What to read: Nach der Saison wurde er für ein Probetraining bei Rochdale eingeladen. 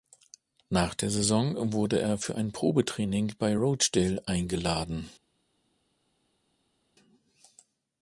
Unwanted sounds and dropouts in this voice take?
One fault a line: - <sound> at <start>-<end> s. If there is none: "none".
none